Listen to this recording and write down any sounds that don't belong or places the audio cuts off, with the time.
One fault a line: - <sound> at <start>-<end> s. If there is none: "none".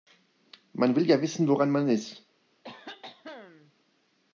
- cough at 2.6-3.7 s